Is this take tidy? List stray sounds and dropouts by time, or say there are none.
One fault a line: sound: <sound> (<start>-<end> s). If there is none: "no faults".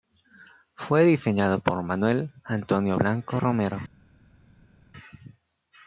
no faults